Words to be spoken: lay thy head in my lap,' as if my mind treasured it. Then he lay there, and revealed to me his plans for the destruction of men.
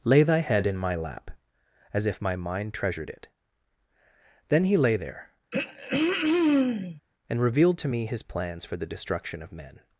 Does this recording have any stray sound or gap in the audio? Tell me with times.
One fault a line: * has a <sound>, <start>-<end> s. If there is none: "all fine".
* has a throat clearing, 5.5-7.0 s